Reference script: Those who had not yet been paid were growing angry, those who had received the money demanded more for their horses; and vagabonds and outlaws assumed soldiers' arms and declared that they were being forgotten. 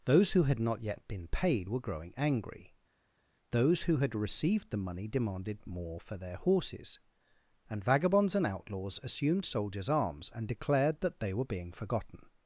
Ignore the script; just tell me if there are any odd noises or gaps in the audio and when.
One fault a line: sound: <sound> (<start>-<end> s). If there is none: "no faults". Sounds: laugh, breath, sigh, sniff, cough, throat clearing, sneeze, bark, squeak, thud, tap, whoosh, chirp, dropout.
no faults